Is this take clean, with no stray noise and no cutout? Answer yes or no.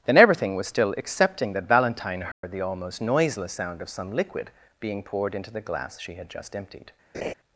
no